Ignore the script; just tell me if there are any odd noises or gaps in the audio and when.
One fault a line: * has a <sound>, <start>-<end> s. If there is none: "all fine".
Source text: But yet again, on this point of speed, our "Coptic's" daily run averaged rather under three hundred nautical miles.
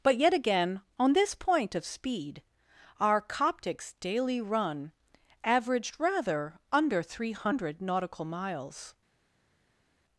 all fine